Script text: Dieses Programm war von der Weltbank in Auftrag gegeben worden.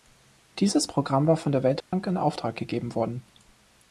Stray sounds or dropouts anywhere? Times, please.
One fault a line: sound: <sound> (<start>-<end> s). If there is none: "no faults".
sound: dropout (1.8-1.9 s)